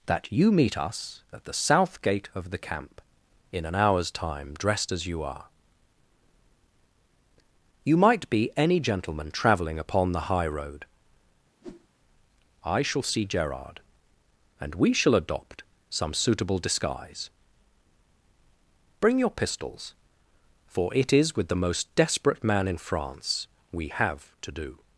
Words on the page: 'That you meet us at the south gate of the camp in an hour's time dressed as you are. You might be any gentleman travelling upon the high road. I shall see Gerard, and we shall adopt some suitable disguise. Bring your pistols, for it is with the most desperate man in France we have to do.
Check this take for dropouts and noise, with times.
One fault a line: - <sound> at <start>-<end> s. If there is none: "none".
- whoosh at 11.6-11.9 s